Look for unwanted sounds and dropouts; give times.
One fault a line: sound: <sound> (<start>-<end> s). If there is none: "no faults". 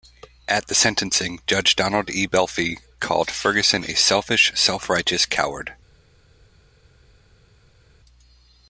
no faults